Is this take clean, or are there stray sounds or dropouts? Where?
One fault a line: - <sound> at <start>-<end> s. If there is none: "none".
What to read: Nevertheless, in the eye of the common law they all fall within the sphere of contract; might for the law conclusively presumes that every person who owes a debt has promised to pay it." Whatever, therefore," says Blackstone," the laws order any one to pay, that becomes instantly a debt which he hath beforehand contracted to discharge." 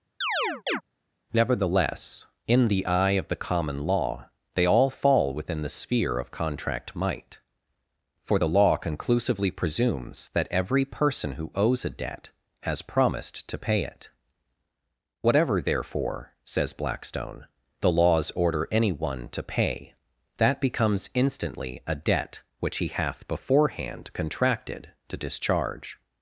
- chirp at 0.2-0.8 s